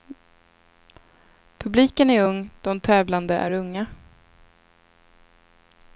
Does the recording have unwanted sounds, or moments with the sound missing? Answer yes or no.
no